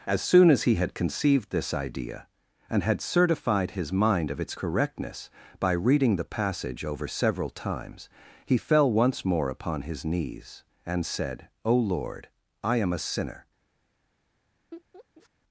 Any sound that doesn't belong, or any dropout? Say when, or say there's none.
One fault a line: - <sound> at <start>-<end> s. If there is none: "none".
- laugh at 14.7-15.3 s